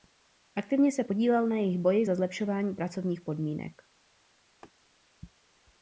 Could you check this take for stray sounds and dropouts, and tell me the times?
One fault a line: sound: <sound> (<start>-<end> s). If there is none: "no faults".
sound: laugh (4.6-4.7 s)